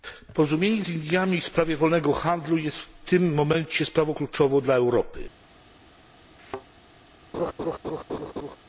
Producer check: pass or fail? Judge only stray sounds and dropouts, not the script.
fail